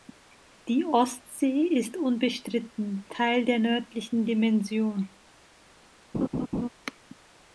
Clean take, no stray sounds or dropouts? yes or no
no